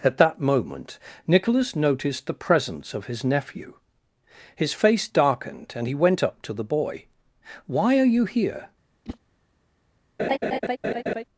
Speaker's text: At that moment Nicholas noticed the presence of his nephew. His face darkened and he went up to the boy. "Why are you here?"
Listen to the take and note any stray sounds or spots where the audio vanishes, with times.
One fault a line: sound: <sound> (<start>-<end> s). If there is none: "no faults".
sound: whoosh (9.0-9.2 s)
sound: laugh (10.2-11.2 s)